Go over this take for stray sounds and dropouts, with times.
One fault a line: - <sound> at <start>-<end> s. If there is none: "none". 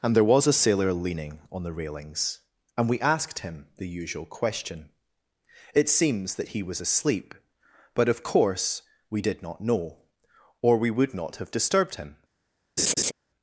- laugh at 12.8-13.1 s